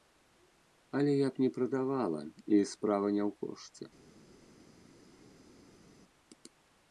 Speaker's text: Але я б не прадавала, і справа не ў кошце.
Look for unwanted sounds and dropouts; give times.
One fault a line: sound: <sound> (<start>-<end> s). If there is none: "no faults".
no faults